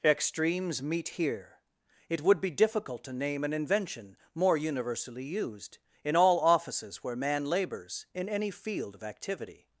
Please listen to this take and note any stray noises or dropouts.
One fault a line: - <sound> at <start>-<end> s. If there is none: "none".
none